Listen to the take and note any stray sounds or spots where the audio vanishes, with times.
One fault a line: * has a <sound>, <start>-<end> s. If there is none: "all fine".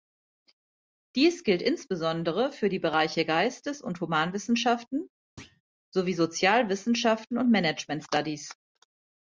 * has a thud, 5.4-5.6 s